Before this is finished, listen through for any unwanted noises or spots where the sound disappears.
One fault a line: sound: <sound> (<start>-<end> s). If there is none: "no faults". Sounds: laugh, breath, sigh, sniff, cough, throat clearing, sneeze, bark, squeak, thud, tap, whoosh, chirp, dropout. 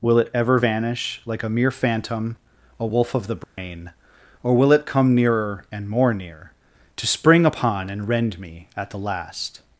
sound: dropout (3.4-3.6 s)